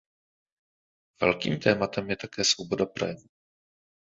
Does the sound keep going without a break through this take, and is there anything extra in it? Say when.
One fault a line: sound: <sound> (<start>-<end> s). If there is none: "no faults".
no faults